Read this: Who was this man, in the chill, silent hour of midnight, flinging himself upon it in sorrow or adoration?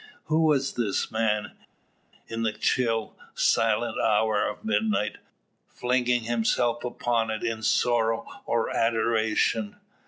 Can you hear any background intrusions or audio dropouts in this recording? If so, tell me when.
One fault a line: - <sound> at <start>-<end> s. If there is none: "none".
none